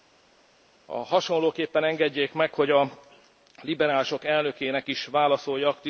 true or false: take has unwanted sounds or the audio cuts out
false